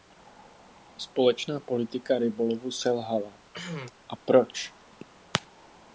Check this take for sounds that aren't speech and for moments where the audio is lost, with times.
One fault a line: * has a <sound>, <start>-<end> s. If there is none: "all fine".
* has a cough, 3.5-3.9 s